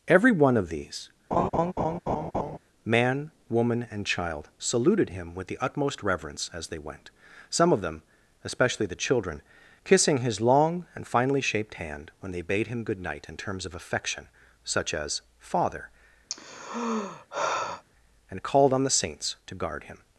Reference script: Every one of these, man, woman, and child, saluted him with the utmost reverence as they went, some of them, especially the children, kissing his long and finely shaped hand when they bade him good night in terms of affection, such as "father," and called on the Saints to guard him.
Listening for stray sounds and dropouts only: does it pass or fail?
fail